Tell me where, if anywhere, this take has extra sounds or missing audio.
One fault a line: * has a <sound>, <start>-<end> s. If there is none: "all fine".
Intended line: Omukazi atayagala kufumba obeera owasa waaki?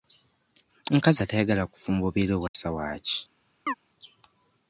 * has a dropout, 2.5-2.5 s
* has a chirp, 3.7-3.7 s